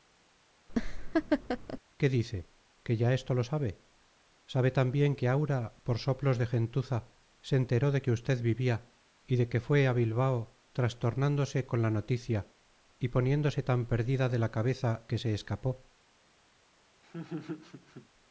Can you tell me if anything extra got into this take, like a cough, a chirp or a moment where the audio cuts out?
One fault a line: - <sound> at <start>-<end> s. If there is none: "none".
- laugh at 0.7-1.8 s
- laugh at 17.0-18.1 s